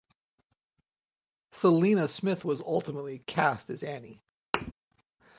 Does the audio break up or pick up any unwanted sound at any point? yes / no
yes